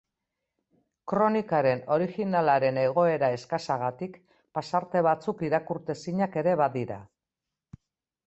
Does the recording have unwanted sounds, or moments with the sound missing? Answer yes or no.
no